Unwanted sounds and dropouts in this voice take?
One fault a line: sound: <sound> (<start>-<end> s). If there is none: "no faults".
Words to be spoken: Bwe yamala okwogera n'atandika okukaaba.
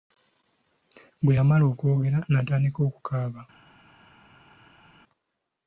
no faults